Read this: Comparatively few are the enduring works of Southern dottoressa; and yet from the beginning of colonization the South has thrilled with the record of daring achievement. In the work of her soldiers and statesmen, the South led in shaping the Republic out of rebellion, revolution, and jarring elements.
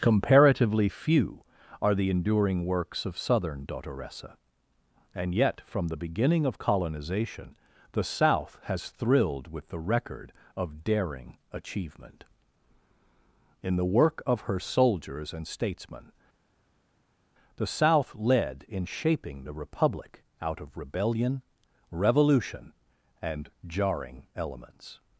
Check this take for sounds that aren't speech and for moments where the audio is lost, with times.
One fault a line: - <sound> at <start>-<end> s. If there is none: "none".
none